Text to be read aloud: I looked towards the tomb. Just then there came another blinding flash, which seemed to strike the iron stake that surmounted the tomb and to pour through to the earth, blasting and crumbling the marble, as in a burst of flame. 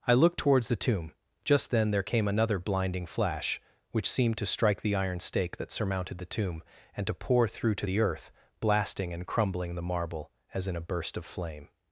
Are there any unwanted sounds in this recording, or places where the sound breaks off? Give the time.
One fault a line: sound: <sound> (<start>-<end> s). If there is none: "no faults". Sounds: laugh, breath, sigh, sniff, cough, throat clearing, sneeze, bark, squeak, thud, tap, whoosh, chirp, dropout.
no faults